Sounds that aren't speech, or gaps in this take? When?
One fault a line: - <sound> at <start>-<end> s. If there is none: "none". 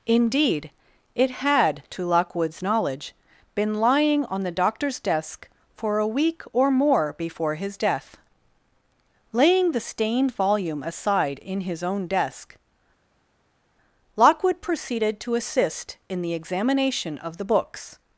none